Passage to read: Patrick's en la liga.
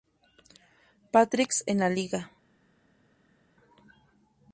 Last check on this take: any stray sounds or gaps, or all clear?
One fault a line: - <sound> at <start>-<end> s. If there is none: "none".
none